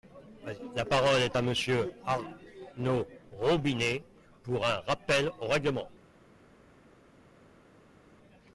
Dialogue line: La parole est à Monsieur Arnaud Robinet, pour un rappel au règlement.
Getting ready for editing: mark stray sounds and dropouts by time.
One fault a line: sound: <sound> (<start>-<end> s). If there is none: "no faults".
no faults